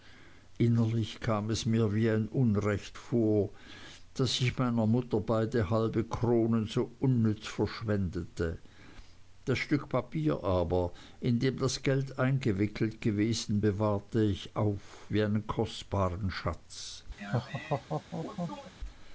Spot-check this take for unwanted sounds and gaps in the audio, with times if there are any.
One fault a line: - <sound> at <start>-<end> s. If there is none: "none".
- laugh at 17.2-18.7 s